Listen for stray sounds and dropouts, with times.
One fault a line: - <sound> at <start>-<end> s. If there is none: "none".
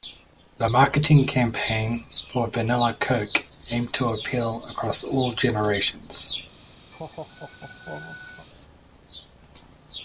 - laugh at 6.9-8.5 s